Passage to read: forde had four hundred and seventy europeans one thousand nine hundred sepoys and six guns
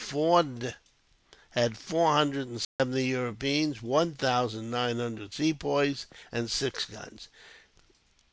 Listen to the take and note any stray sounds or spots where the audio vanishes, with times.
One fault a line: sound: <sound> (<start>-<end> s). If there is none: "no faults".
sound: dropout (2.6-2.8 s)